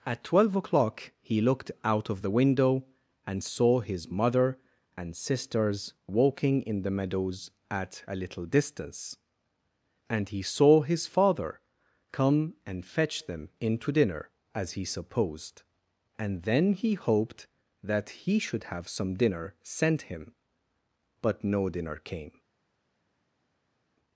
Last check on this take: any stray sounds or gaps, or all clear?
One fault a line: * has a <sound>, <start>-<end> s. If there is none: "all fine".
all fine